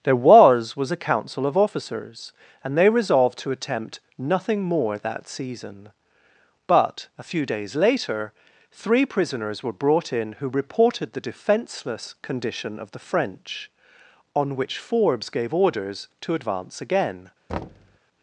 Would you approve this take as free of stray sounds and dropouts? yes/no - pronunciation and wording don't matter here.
no